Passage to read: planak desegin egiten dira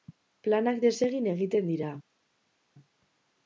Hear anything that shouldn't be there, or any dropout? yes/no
no